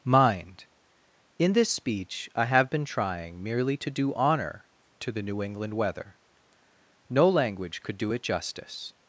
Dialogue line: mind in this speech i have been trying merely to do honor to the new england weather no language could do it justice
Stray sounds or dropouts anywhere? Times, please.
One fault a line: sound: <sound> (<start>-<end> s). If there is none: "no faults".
no faults